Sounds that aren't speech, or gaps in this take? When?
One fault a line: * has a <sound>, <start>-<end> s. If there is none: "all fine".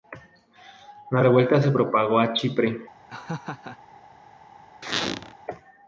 * has a laugh, 3.1-3.8 s
* has a squeak, 4.8-5.3 s